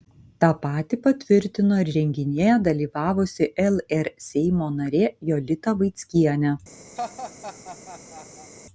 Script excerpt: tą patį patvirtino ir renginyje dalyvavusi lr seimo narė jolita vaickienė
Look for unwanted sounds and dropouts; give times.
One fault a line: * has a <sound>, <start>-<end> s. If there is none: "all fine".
* has a laugh, 7.0-8.5 s